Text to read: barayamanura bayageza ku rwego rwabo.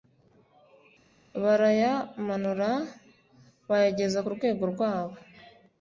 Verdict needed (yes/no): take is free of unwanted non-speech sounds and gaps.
yes